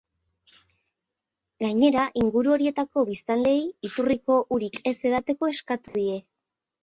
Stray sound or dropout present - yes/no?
yes